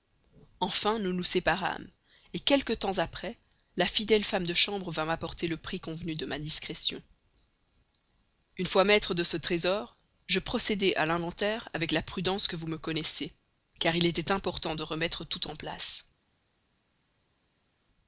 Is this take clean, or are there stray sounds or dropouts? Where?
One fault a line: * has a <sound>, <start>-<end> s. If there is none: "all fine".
all fine